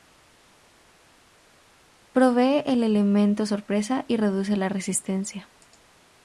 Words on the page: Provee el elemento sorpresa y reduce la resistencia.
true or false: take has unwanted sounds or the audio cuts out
false